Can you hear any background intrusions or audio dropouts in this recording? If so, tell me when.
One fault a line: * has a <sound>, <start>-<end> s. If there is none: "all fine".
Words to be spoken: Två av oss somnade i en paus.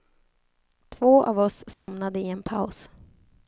* has a dropout, 1.7-1.9 s